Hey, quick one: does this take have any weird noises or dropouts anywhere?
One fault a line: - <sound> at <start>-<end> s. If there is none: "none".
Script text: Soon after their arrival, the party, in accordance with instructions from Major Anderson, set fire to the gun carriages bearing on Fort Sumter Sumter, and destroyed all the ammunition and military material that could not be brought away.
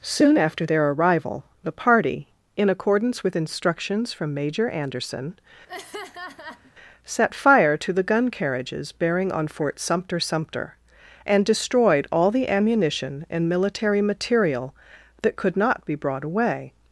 - laugh at 5.7-6.7 s